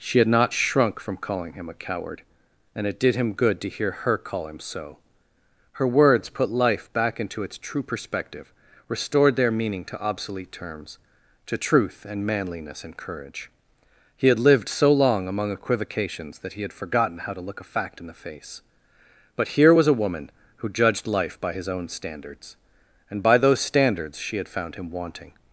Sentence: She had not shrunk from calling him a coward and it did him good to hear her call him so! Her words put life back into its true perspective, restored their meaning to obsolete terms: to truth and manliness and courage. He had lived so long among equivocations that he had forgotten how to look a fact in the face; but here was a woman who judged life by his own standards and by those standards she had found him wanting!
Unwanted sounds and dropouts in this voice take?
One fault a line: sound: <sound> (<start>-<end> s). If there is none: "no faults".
no faults